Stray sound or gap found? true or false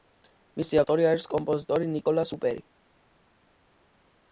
false